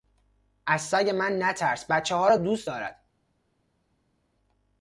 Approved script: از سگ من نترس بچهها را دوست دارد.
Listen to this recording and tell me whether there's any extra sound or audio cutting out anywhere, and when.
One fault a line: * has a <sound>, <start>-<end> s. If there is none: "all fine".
all fine